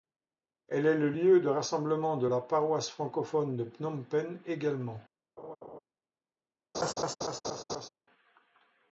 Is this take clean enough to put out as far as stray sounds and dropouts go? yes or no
no